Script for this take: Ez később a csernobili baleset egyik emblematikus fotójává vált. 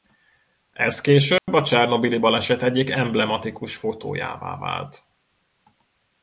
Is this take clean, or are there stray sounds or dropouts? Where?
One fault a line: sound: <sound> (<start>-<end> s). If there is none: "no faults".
sound: dropout (1.4-1.5 s)